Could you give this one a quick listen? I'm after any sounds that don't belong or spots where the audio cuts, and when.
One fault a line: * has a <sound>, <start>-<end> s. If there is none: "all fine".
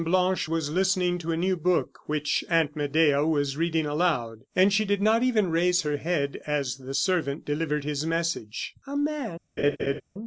* has a laugh, 9.6-10.0 s